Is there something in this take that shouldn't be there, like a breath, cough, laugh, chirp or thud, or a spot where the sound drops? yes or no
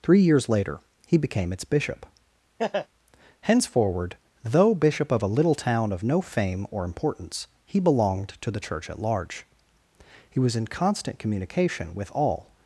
yes